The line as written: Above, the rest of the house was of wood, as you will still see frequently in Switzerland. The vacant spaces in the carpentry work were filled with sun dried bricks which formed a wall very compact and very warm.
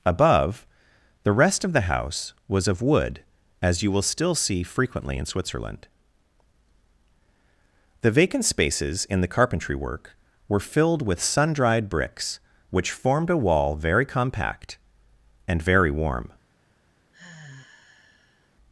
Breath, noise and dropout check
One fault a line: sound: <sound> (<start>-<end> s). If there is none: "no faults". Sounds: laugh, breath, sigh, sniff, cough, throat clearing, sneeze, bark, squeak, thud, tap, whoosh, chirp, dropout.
sound: sigh (17.1-18.5 s)